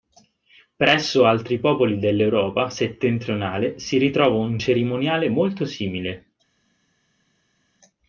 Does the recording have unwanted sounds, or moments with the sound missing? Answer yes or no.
no